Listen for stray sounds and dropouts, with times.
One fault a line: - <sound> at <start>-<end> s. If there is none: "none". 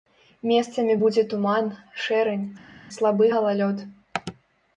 none